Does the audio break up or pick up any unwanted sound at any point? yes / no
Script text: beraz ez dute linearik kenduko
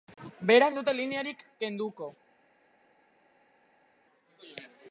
no